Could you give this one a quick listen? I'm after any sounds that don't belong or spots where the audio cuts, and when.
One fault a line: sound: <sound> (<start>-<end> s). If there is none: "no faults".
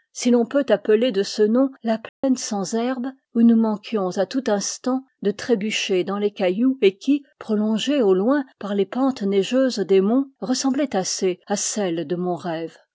sound: dropout (2.1-2.2 s)